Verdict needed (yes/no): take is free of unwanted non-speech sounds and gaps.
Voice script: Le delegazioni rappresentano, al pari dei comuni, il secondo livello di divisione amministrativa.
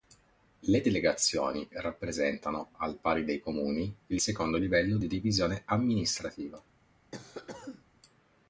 no